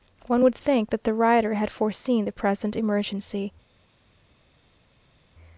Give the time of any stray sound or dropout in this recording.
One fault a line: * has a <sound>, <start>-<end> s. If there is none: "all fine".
all fine